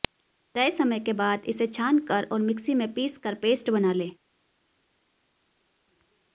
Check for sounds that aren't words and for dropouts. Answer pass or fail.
pass